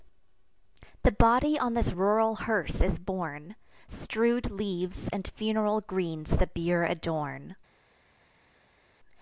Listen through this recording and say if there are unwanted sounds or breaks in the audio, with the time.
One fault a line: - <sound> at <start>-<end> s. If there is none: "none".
none